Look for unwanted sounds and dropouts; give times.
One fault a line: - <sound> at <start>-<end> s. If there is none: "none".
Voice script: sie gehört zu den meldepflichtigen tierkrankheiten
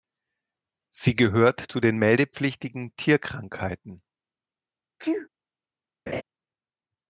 - sneeze at 5.0-5.3 s
- laugh at 6.1-6.2 s